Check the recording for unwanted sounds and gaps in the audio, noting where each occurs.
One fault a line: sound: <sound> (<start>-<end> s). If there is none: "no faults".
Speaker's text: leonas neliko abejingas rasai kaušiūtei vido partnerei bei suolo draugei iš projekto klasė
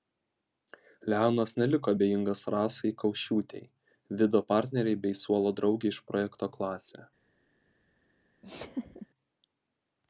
sound: laugh (8.4-9.1 s)